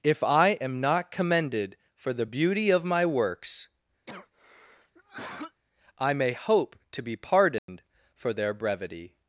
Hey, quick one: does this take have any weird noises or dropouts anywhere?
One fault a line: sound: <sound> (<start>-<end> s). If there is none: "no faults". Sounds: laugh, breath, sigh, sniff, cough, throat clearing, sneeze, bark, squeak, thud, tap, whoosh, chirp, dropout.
sound: cough (4.1-5.6 s)
sound: dropout (7.6-7.7 s)